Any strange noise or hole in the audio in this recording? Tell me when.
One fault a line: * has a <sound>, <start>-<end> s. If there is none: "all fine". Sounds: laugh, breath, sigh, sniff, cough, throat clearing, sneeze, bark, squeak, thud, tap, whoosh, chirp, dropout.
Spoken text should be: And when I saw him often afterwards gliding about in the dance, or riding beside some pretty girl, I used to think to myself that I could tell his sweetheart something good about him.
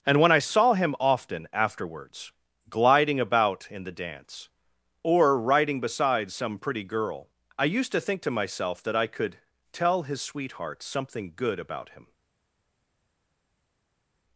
all fine